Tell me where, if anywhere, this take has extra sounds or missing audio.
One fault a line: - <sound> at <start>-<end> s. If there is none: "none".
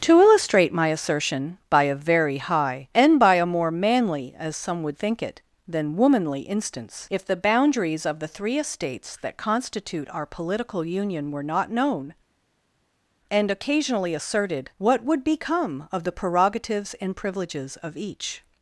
none